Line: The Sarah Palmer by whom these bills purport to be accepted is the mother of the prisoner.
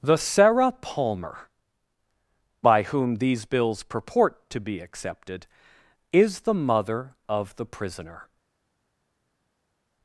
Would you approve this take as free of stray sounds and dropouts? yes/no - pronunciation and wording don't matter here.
yes